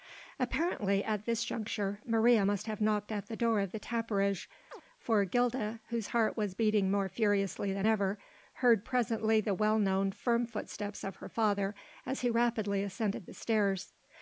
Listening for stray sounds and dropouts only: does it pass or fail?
fail